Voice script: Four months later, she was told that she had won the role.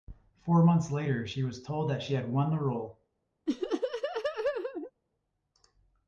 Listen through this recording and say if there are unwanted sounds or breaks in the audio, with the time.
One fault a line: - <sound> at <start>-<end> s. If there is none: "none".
- laugh at 3.5-4.9 s